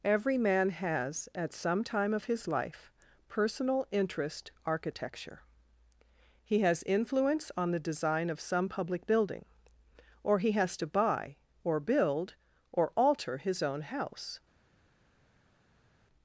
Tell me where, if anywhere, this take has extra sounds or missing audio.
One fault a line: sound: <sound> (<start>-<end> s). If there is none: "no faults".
no faults